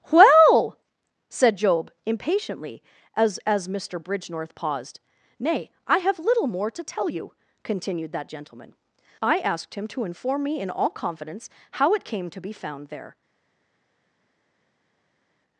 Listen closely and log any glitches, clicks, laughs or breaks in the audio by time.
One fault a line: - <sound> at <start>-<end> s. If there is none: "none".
none